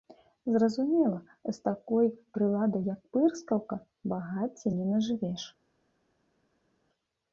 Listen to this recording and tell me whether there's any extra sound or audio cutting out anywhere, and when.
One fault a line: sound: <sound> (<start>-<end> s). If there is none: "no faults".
no faults